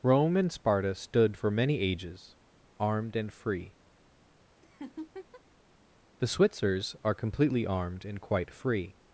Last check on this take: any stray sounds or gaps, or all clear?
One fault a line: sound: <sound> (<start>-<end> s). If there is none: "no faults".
sound: laugh (4.6-5.4 s)